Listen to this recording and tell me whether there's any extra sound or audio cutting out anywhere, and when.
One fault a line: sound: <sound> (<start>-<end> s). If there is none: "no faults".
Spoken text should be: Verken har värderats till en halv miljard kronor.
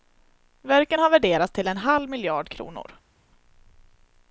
no faults